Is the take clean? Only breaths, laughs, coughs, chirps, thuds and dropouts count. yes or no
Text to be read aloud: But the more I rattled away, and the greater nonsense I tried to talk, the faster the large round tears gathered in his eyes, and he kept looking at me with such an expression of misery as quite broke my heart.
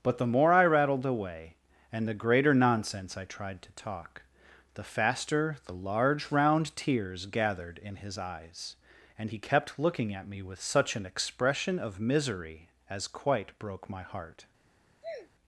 no